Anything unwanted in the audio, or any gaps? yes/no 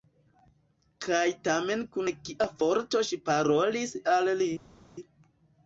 no